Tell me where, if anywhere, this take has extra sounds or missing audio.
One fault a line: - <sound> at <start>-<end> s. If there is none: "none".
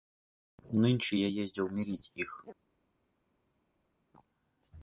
none